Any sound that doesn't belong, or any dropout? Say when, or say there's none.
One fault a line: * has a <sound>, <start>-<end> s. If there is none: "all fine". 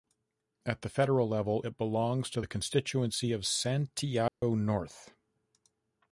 * has a dropout, 4.3-4.4 s